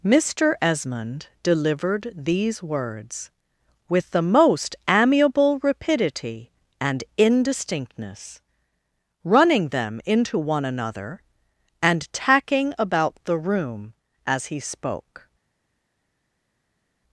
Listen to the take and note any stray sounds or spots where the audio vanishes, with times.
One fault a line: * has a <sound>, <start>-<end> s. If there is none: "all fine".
all fine